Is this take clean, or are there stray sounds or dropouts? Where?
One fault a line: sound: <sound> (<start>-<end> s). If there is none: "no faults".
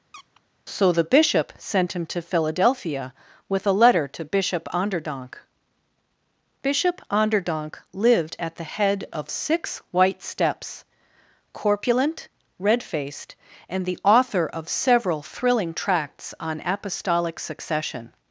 sound: squeak (0.1-0.4 s)